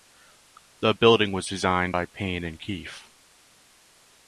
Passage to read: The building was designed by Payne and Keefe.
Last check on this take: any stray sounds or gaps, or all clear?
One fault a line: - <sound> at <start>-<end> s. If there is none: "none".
none